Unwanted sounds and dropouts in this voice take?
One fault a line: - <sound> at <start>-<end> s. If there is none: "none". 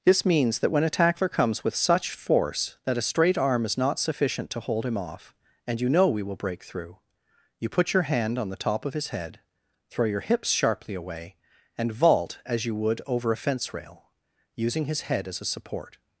none